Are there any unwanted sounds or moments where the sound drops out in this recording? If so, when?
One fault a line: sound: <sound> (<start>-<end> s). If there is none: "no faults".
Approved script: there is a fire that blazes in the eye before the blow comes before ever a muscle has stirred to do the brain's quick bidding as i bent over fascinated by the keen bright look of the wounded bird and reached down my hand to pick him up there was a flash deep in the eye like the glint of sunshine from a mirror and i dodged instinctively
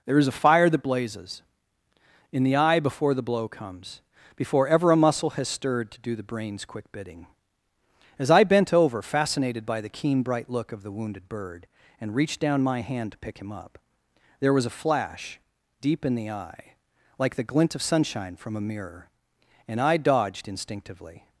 no faults